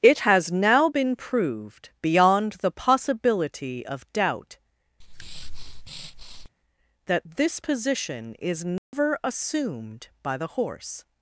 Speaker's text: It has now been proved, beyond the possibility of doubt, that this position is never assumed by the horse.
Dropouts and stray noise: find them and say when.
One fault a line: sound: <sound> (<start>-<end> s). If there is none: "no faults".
sound: breath (5.0-6.5 s)
sound: dropout (8.8-8.9 s)